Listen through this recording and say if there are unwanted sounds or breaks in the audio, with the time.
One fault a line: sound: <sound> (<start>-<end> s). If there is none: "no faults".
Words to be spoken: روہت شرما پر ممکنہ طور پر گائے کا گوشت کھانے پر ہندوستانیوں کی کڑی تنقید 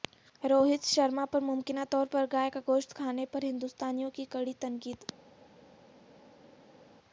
no faults